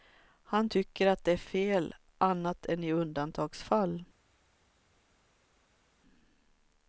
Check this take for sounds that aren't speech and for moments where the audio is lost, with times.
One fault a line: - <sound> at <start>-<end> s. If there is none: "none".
none